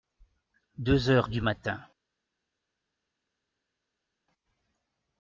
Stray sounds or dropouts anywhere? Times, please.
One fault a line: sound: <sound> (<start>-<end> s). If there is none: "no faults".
no faults